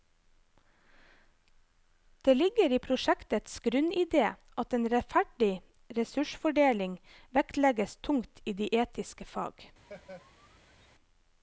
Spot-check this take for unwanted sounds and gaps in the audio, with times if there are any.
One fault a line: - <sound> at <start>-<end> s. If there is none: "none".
- laugh at 9.8-10.9 s